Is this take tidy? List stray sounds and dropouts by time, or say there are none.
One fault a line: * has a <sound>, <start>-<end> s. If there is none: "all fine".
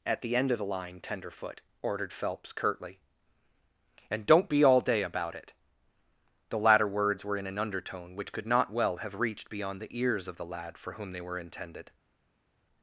all fine